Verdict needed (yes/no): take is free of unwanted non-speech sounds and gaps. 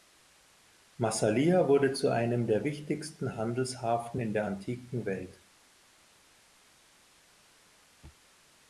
yes